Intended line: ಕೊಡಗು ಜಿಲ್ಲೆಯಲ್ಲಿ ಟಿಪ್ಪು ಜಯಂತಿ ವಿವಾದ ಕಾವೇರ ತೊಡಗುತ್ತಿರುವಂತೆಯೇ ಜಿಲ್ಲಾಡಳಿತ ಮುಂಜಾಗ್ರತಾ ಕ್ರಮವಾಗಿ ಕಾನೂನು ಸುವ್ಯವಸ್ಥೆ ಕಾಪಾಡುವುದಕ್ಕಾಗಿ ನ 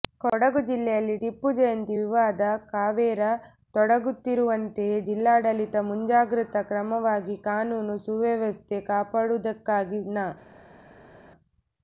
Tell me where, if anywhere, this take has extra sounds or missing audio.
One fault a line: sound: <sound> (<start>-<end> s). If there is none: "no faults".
no faults